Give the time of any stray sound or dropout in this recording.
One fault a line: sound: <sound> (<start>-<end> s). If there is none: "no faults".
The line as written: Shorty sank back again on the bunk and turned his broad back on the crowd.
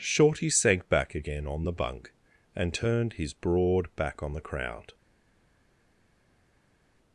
no faults